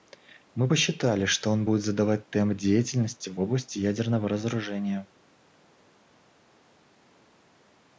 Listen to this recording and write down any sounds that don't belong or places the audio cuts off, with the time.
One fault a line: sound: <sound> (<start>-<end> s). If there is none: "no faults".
no faults